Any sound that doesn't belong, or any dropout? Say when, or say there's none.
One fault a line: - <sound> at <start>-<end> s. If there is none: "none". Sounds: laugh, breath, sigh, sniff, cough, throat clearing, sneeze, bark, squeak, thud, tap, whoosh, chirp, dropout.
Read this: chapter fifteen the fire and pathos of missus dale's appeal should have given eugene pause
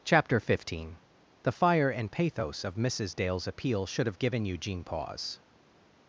none